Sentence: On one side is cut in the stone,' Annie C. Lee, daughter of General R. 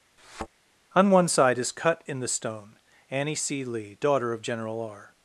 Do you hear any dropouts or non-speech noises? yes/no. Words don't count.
yes